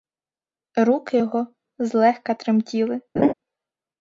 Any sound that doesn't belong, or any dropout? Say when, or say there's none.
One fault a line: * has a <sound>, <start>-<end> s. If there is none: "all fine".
* has a laugh, 3.2-3.3 s